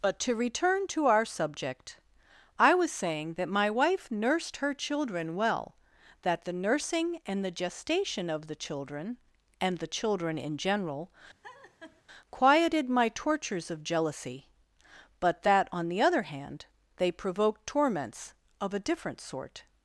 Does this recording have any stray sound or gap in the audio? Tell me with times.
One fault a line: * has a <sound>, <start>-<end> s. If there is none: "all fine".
* has a laugh, 11.4-12.0 s